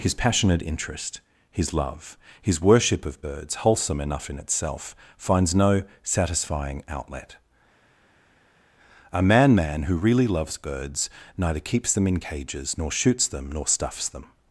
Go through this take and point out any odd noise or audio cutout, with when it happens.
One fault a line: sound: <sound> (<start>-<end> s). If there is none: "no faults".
no faults